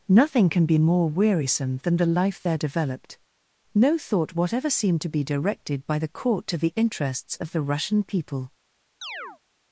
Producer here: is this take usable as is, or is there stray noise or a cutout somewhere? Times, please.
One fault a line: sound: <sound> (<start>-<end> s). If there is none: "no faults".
sound: chirp (9.0-9.4 s)